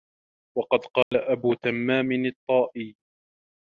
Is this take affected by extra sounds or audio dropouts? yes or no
yes